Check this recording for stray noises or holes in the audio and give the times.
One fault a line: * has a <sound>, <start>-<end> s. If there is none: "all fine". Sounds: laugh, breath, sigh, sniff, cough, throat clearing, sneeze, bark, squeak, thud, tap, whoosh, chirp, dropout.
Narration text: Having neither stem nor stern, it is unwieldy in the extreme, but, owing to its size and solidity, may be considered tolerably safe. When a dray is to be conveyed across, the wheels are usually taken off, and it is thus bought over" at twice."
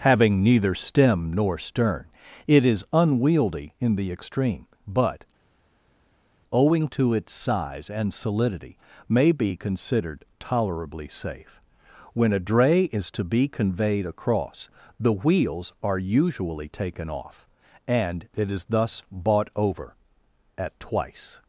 all fine